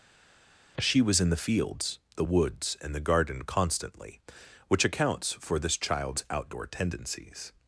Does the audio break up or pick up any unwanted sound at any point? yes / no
no